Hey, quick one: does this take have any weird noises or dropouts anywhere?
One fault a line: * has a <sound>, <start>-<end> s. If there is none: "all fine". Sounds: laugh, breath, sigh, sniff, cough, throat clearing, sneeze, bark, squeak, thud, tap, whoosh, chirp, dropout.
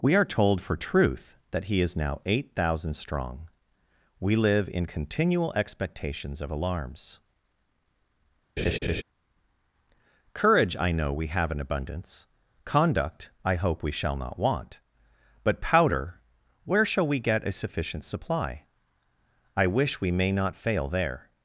* has a laugh, 8.6-9.0 s